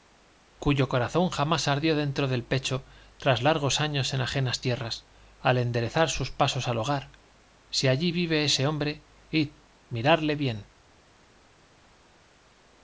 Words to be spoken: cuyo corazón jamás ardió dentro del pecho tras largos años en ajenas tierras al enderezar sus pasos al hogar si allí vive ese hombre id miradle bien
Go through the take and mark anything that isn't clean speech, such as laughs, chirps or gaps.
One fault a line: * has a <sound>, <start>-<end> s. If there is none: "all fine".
all fine